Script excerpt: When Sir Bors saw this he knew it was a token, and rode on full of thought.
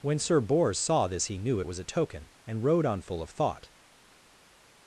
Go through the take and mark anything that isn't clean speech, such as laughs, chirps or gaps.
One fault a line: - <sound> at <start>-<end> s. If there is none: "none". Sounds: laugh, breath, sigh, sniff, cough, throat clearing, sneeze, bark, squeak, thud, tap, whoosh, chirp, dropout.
none